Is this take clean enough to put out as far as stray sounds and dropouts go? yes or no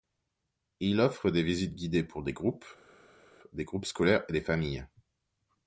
yes